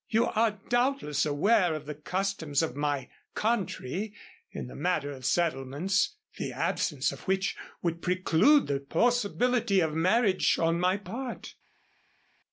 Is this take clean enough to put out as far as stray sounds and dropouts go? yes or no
yes